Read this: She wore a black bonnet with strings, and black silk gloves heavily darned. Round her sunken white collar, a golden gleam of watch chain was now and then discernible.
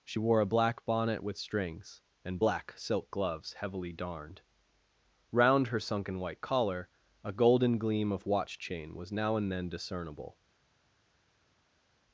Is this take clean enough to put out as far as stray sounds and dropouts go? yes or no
yes